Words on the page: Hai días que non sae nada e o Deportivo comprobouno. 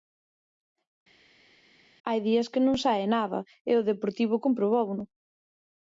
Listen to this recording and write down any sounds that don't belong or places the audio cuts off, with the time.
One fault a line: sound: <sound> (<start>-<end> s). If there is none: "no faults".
no faults